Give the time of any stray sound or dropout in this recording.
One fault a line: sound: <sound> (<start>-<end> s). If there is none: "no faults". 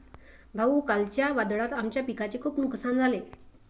no faults